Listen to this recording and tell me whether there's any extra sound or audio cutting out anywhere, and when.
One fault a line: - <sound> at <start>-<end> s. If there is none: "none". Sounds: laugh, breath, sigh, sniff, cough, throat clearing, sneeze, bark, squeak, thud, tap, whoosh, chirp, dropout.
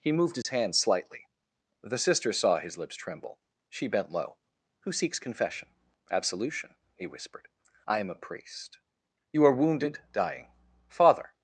- dropout at 0.4-0.4 s